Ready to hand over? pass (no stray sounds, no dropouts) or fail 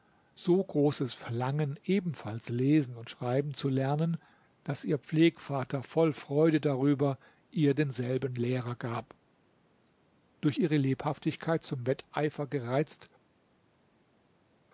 pass